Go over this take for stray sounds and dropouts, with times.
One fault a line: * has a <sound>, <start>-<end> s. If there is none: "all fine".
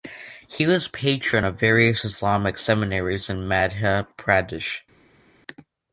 all fine